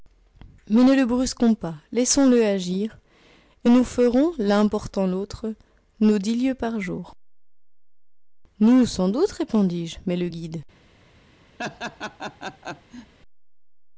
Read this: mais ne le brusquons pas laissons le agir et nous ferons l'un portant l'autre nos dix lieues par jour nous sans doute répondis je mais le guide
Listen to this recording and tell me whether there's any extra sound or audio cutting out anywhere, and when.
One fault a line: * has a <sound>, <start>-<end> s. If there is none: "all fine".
* has a laugh, 11.6-13.1 s